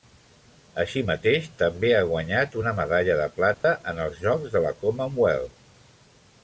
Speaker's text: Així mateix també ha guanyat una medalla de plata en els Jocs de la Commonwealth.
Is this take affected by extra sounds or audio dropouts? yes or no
yes